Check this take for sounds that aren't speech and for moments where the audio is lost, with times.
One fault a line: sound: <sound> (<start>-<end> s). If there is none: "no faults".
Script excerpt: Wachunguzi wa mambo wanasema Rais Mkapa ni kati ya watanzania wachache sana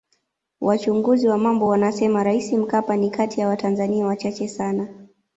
no faults